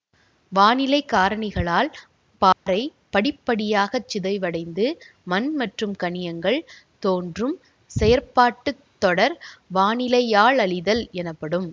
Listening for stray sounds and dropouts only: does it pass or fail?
fail